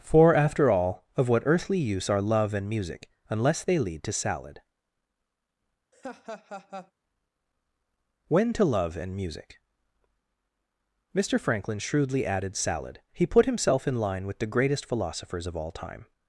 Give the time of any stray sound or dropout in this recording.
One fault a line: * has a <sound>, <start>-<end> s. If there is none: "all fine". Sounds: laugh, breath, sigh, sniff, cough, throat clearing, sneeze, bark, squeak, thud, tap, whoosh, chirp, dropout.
* has a laugh, 5.9-6.9 s